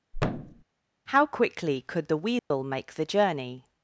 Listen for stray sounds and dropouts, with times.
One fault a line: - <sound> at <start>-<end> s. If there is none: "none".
- thud at 0.1-0.6 s
- dropout at 2.4-2.5 s